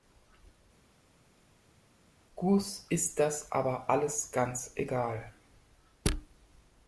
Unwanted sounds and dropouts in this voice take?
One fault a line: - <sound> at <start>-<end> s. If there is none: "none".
none